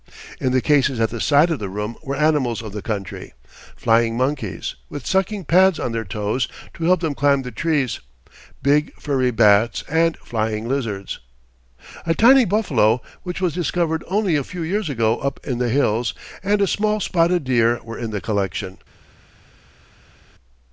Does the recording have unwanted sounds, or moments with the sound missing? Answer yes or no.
no